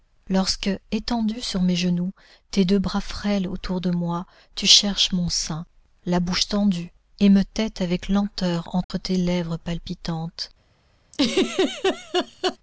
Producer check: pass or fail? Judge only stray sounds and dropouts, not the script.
fail